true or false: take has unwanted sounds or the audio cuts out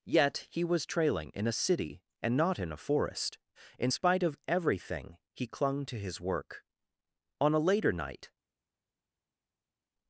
false